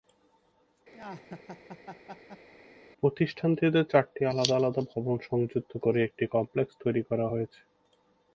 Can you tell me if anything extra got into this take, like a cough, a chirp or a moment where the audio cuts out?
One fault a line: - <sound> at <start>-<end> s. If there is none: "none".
- laugh at 0.9-2.5 s